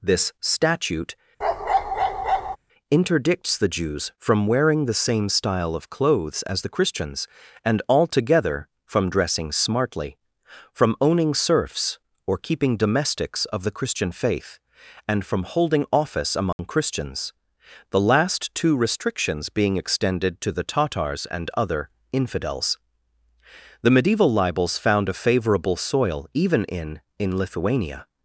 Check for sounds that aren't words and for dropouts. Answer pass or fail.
fail